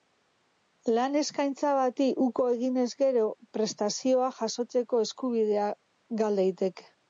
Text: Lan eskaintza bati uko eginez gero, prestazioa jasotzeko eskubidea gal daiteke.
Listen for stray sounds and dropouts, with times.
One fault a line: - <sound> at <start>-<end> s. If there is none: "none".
none